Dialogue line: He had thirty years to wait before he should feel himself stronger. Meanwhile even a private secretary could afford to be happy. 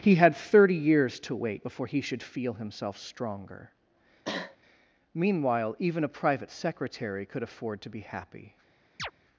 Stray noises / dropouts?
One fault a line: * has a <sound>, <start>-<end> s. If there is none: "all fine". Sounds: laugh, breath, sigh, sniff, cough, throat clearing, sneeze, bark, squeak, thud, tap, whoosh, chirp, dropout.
* has a cough, 4.2-4.6 s
* has a chirp, 9.0-9.1 s